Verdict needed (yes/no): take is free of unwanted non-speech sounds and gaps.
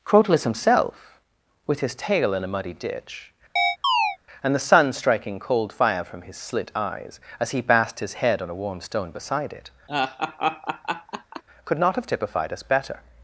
no